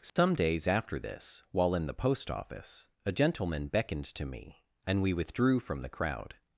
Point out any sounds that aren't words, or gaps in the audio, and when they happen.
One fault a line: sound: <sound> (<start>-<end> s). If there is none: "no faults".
sound: dropout (0.1-0.2 s)